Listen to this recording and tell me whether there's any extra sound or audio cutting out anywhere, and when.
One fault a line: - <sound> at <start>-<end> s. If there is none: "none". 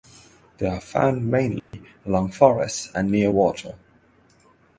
- dropout at 1.6-1.7 s